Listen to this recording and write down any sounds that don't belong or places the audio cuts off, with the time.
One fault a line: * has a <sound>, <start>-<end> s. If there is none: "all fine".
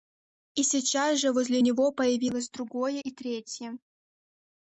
all fine